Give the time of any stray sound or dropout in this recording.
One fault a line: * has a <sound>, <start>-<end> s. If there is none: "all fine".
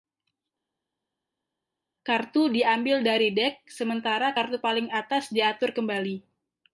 all fine